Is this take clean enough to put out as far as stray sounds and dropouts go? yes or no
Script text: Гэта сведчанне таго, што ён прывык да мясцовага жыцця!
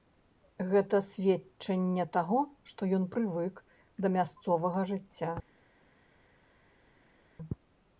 yes